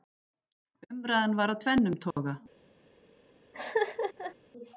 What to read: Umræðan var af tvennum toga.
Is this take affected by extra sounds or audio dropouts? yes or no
yes